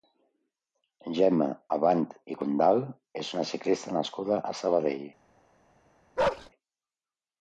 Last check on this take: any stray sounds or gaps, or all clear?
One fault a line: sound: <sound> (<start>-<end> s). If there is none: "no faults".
sound: bark (6.2-6.5 s)